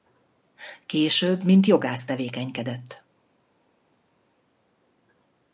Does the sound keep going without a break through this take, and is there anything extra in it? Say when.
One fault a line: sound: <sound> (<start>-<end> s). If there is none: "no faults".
no faults